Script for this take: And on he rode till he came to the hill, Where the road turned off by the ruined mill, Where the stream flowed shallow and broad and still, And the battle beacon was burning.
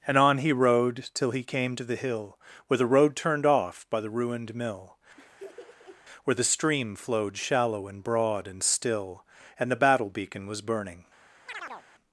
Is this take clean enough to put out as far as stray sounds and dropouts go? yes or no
no